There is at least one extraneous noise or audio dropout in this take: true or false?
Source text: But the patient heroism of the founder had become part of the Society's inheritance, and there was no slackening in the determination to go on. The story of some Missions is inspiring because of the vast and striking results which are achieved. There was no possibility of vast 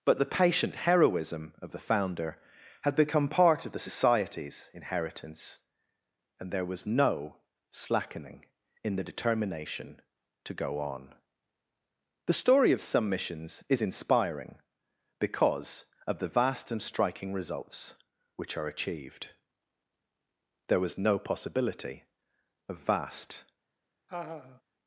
true